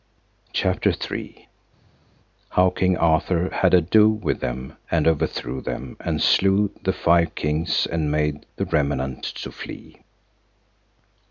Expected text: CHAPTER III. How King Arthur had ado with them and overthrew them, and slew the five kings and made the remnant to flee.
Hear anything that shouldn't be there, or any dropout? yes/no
no